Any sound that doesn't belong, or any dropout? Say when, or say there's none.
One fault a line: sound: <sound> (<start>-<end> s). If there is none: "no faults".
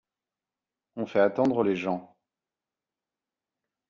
no faults